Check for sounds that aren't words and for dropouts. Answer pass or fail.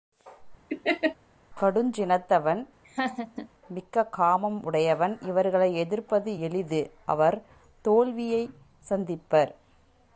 fail